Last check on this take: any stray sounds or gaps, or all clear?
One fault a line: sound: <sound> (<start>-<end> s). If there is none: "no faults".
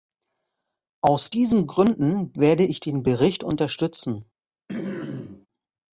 sound: throat clearing (4.7-5.5 s)